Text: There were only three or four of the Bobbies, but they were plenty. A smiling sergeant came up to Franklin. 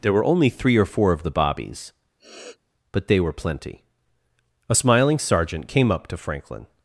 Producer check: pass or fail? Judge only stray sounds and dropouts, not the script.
fail